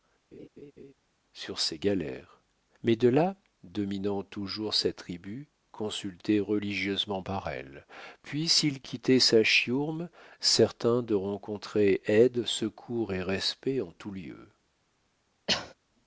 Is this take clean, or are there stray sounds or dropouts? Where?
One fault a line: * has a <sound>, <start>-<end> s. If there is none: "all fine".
* has a laugh, 0.3-0.9 s
* has a cough, 15.5-15.7 s